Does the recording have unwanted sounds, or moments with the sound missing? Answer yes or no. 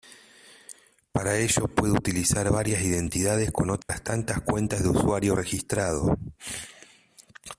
yes